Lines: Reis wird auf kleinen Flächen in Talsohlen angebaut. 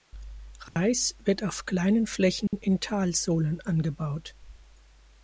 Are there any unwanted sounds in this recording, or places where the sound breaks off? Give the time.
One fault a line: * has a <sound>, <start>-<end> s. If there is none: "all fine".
* has a dropout, 0.7-0.8 s
* has a dropout, 2.5-2.5 s